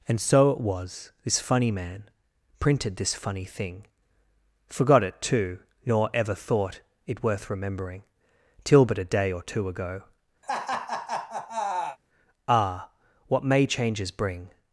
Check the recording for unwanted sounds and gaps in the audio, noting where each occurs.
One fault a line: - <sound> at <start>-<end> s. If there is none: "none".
- laugh at 10.4-12.0 s